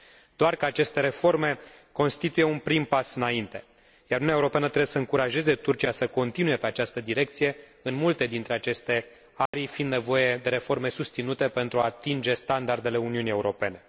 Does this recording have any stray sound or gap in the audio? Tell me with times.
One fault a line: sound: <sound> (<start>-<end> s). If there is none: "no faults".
sound: dropout (9.5-9.5 s)